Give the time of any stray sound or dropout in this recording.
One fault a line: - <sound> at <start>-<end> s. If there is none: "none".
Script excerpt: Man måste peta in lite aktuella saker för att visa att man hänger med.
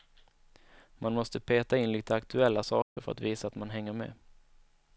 - dropout at 2.8-3.0 s